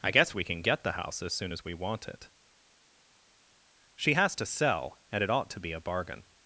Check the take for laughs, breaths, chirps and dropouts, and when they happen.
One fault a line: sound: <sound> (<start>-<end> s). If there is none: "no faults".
no faults